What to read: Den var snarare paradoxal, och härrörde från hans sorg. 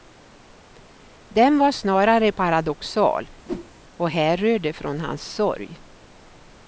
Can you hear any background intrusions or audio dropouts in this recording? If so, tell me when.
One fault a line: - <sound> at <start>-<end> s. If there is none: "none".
- whoosh at 3.4-3.7 s